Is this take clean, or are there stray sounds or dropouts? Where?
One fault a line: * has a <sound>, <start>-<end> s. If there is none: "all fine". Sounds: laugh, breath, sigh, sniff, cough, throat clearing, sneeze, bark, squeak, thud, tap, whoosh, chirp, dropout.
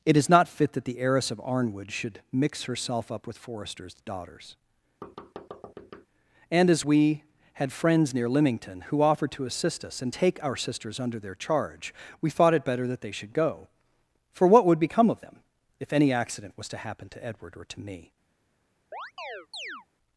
* has a thud, 5.0-6.1 s
* has a chirp, 18.9-19.9 s